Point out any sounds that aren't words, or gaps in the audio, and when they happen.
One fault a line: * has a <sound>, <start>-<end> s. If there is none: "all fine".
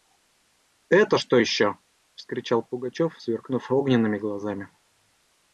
all fine